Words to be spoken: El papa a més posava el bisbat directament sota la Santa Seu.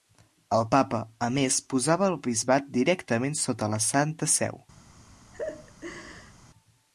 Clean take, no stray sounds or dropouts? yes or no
no